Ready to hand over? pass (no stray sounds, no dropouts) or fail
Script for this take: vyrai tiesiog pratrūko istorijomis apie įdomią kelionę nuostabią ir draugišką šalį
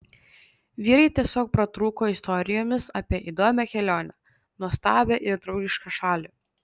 pass